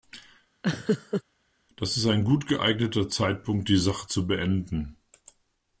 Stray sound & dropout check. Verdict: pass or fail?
fail